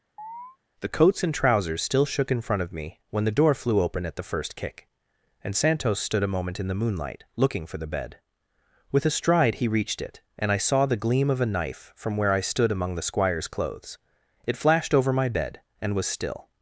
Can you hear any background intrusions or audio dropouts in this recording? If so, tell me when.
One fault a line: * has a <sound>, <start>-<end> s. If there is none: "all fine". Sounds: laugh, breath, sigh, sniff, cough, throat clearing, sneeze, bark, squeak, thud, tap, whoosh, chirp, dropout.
* has a chirp, 0.2-0.6 s